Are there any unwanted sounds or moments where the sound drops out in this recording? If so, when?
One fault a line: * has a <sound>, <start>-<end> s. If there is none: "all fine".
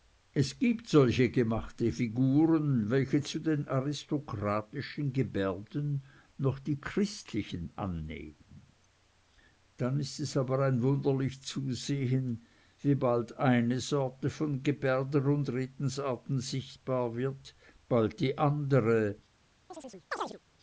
* has a chirp, 19.7-20.4 s